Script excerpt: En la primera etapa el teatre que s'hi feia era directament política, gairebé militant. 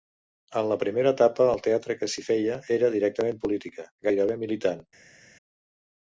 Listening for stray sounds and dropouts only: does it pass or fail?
pass